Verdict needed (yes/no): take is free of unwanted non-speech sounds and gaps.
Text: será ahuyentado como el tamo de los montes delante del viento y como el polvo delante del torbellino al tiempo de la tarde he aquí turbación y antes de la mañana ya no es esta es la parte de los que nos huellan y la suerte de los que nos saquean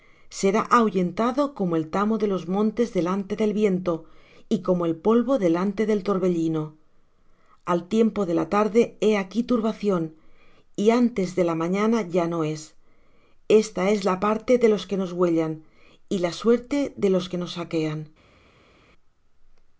yes